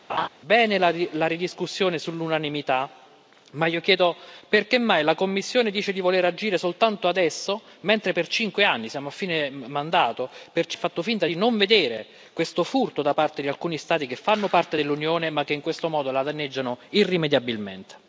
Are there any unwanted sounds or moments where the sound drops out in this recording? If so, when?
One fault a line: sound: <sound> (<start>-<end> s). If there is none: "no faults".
sound: laugh (0.1-0.3 s)